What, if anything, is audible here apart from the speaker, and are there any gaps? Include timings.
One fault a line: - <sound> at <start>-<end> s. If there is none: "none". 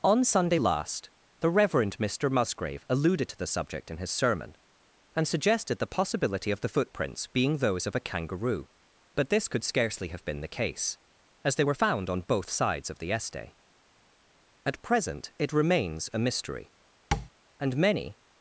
- tap at 17.1-17.3 s